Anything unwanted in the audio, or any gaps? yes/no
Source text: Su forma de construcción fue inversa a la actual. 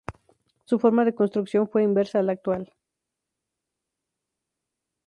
no